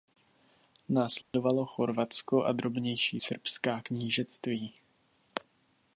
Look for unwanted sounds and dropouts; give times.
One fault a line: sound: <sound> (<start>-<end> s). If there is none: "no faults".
sound: dropout (1.2-1.3 s)